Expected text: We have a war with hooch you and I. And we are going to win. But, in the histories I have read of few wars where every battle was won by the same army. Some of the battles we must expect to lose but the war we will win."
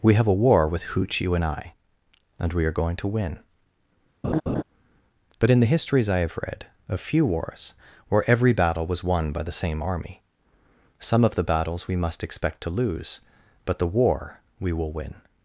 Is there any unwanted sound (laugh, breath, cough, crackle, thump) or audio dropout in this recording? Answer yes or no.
yes